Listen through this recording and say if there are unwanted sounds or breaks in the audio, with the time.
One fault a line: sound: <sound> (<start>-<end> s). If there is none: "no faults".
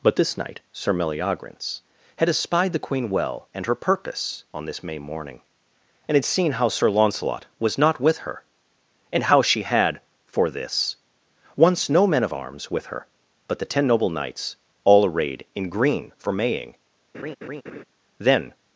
sound: laugh (17.1-17.8 s)